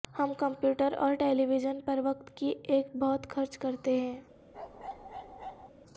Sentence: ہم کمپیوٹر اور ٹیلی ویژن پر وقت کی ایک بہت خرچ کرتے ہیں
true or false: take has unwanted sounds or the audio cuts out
true